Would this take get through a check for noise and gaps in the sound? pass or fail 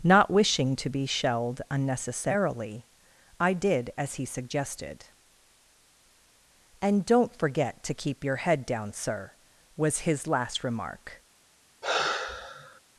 fail